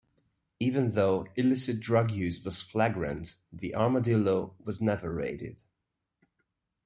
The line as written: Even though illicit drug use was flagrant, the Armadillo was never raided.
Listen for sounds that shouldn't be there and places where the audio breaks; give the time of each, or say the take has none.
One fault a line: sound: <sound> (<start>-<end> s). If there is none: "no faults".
no faults